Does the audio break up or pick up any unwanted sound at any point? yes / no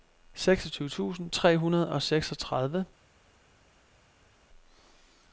no